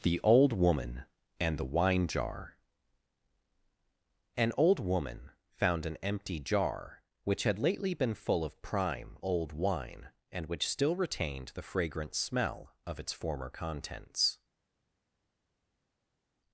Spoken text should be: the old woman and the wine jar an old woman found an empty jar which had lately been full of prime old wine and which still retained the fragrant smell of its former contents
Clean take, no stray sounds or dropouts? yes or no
yes